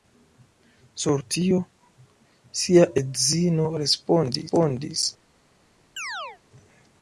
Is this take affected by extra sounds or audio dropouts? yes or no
yes